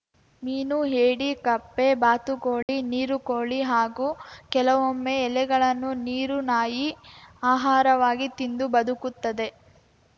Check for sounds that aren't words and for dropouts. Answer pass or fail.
fail